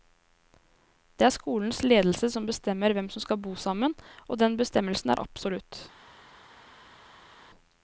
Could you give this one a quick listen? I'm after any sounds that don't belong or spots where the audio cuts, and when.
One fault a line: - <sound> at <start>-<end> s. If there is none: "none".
none